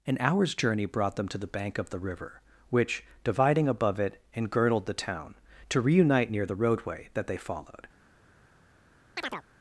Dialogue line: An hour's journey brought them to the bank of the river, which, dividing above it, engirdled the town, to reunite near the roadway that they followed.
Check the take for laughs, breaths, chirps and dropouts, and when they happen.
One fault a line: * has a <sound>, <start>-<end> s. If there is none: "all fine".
* has a chirp, 9.2-9.4 s